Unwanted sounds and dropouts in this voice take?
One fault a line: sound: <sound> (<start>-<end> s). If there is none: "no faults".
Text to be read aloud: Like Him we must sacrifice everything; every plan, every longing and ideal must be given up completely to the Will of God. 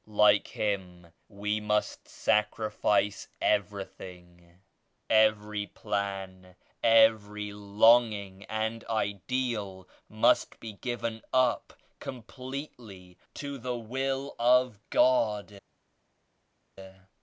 no faults